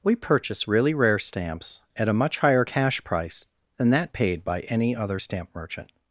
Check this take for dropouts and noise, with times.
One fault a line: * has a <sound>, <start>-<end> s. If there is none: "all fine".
all fine